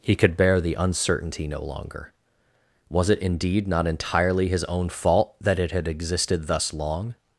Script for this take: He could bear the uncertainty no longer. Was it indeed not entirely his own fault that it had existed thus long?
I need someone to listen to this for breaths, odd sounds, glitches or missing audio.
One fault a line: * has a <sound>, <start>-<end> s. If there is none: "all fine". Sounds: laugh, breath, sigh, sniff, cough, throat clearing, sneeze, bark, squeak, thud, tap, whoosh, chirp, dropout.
all fine